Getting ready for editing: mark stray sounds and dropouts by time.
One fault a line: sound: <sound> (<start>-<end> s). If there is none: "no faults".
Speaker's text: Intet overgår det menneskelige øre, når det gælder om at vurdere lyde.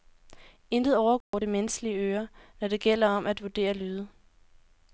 sound: dropout (1.2-1.3 s)